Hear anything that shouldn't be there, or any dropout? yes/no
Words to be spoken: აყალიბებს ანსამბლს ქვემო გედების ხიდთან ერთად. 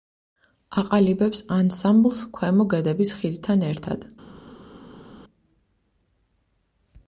no